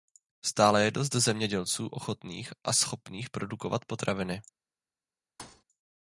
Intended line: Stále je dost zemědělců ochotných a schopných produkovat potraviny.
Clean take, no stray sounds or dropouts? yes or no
no